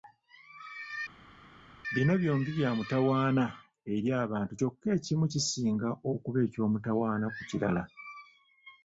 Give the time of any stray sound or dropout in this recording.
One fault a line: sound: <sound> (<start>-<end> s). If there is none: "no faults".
no faults